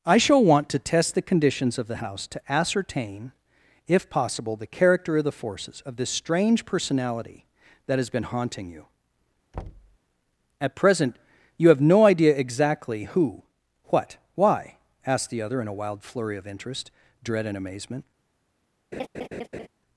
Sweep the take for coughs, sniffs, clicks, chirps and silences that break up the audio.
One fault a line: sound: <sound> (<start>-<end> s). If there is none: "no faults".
sound: thud (9.5-10.0 s)
sound: laugh (18.9-19.7 s)